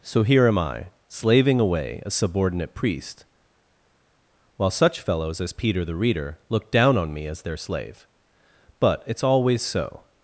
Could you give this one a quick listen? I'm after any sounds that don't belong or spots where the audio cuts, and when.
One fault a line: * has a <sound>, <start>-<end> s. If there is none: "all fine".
all fine